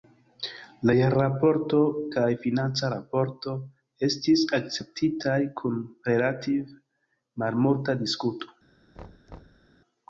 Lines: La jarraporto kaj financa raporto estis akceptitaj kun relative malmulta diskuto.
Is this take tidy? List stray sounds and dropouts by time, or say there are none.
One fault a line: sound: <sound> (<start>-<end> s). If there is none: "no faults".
sound: thud (8.9-9.7 s)